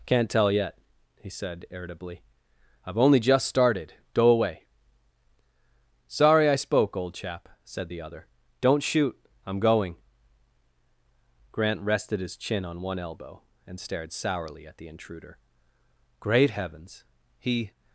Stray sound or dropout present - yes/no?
no